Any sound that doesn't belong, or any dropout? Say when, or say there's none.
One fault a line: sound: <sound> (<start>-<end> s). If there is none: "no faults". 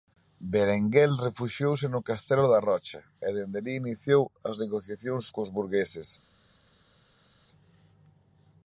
no faults